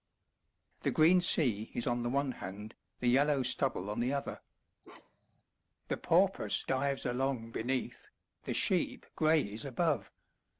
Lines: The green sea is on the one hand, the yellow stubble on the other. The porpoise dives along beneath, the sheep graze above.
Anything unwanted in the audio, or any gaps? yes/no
yes